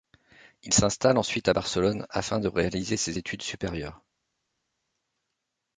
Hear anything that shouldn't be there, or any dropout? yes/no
no